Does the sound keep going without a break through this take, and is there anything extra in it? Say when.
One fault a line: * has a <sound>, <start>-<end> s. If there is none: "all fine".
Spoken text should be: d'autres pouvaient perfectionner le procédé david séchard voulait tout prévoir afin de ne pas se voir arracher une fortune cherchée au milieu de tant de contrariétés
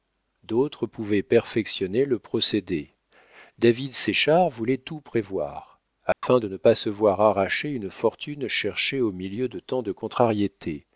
* has a dropout, 6.1-6.2 s